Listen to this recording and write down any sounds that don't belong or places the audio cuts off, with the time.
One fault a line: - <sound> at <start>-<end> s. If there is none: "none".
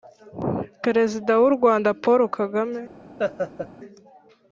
- laugh at 3.2-3.7 s